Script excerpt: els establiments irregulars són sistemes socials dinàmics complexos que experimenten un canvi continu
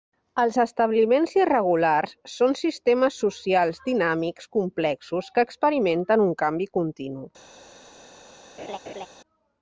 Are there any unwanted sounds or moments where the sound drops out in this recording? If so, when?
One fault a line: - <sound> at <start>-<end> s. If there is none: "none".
- laugh at 8.6-9.1 s